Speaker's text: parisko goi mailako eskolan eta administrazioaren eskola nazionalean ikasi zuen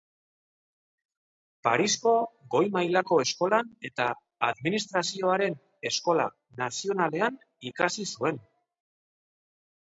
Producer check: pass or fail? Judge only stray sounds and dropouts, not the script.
pass